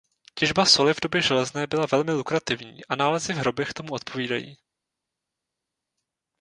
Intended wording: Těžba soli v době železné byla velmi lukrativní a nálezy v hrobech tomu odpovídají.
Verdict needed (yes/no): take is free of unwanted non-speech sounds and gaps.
yes